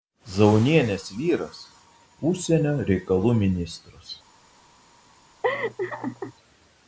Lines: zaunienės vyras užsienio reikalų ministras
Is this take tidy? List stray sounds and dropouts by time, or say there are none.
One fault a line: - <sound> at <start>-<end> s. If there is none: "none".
- laugh at 5.4-6.3 s